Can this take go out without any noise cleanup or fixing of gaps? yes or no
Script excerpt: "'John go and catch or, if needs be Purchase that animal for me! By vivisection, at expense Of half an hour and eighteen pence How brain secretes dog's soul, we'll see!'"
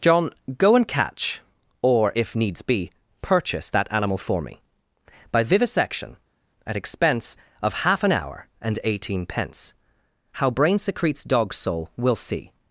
yes